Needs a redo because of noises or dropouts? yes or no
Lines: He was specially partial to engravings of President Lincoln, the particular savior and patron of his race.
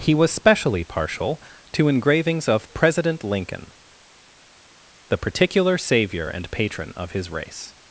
no